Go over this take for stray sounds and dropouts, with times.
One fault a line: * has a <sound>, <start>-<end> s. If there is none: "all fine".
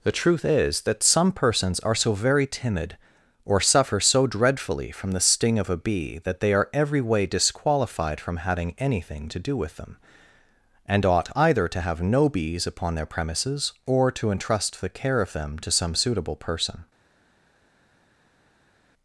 all fine